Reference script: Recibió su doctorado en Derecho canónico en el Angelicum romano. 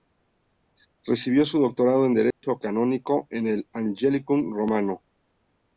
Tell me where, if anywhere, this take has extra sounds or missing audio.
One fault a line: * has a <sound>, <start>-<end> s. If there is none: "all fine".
* has a dropout, 2.3-2.4 s